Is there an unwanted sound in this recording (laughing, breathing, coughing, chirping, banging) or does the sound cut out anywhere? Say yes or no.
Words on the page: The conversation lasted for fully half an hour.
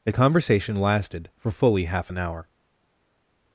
no